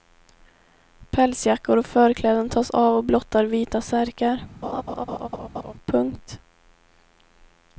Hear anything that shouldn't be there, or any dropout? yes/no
yes